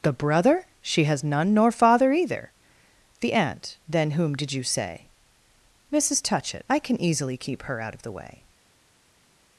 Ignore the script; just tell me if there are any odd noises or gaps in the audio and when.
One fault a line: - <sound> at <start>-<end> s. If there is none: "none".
none